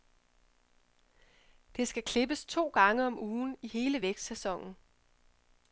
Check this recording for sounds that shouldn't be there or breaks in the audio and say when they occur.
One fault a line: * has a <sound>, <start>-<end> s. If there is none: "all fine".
all fine